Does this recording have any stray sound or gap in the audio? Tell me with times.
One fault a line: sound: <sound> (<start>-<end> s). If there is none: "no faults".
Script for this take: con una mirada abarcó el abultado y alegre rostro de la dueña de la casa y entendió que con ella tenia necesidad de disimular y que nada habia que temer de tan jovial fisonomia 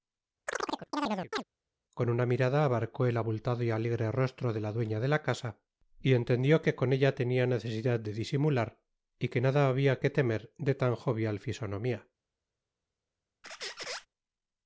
sound: chirp (0.5-1.4 s)
sound: squeak (13.4-14.1 s)